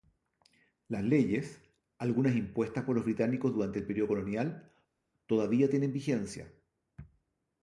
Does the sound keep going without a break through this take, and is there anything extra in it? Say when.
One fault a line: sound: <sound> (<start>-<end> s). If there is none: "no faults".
no faults